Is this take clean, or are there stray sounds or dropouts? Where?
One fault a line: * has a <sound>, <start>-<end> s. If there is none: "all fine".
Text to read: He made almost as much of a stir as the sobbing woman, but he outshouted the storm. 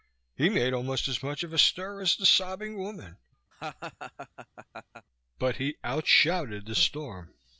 * has a laugh, 3.5-5.1 s